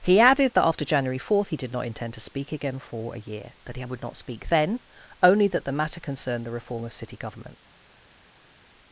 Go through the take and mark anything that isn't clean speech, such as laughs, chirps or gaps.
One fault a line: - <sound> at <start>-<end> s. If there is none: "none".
none